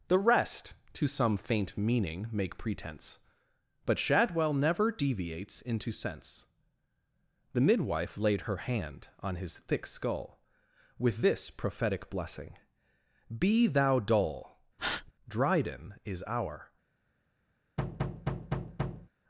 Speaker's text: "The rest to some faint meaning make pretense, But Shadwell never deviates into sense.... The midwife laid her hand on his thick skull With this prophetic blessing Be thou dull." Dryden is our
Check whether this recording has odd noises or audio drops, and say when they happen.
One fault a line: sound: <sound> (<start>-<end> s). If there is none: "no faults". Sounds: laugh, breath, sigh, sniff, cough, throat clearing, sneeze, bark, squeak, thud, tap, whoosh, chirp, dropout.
sound: breath (14.8-15.1 s)
sound: thud (17.8-19.1 s)